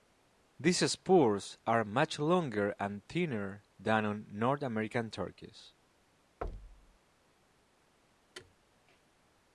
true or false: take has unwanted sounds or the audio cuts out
true